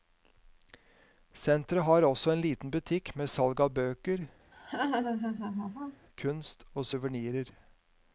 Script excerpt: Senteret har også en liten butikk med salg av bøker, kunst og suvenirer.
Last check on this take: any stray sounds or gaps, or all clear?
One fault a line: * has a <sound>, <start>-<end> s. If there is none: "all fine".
* has a laugh, 4.5-6.1 s